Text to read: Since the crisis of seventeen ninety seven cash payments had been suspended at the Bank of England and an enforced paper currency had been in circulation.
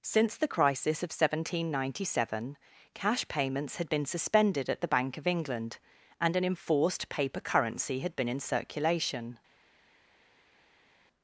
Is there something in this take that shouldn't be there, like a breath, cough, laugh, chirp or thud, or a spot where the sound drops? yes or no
no